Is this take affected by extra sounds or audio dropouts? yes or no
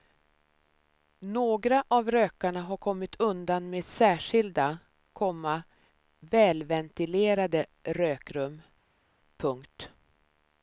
no